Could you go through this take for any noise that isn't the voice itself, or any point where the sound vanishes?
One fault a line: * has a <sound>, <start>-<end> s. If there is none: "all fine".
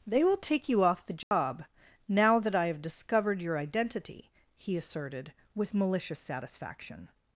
* has a dropout, 1.2-1.3 s